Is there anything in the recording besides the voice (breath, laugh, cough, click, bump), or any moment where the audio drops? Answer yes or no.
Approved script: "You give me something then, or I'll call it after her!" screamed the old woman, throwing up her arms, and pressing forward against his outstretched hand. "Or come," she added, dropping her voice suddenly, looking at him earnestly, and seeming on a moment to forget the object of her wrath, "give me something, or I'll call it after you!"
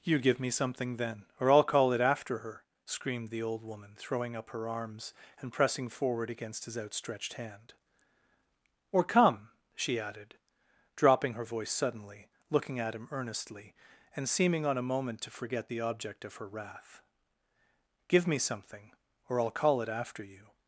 no